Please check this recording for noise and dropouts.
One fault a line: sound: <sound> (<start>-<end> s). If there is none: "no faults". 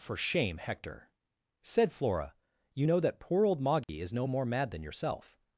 sound: dropout (3.8-3.9 s)